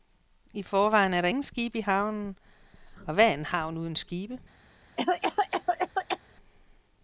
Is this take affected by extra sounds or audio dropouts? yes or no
yes